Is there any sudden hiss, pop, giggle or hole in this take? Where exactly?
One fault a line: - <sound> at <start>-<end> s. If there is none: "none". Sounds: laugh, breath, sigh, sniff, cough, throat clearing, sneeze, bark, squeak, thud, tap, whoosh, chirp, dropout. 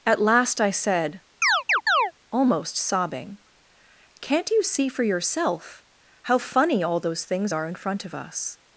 - chirp at 1.4-2.1 s